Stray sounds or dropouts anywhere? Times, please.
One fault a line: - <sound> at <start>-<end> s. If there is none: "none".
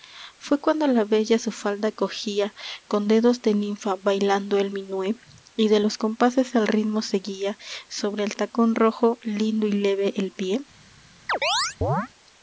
- chirp at 11.3-12.1 s